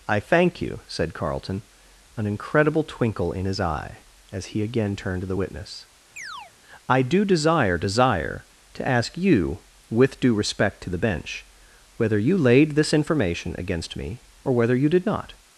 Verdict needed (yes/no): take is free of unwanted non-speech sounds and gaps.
no